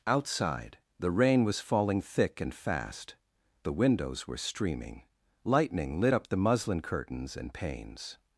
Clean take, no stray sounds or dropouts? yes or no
yes